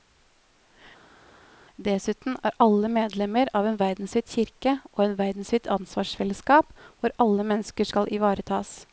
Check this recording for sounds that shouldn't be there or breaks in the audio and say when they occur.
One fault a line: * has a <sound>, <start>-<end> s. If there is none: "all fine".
all fine